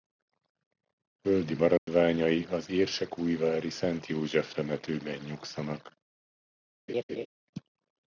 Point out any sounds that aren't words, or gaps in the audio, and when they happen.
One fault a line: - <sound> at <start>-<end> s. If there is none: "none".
- dropout at 1.8-1.9 s
- laugh at 6.9-7.3 s